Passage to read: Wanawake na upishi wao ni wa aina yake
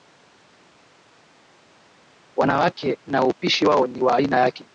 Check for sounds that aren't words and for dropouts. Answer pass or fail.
pass